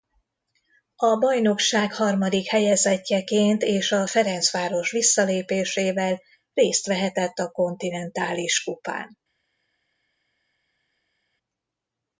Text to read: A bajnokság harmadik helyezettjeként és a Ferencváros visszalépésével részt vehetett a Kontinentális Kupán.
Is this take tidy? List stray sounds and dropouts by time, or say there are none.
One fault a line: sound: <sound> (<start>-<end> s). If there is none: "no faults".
no faults